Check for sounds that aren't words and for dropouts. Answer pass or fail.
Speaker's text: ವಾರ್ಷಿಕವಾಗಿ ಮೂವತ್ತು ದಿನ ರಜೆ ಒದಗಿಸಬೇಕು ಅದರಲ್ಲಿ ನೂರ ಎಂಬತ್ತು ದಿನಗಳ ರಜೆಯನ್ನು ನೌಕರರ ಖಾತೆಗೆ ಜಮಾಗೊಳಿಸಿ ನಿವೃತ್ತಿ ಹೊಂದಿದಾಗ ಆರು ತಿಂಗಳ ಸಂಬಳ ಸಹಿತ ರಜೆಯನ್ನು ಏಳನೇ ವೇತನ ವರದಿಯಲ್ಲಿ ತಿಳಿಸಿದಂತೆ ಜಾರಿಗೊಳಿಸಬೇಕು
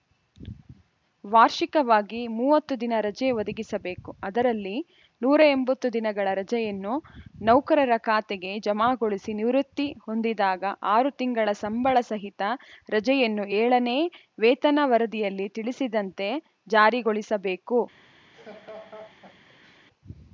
fail